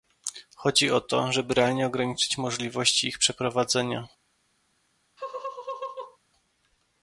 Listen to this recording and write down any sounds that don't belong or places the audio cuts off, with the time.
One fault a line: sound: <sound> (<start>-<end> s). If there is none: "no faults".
sound: laugh (5.2-6.2 s)